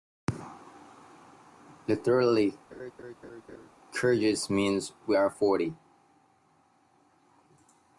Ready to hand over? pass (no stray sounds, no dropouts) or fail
fail